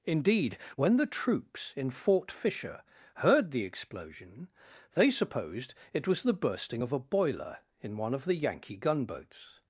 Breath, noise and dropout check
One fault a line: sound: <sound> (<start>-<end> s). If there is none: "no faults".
no faults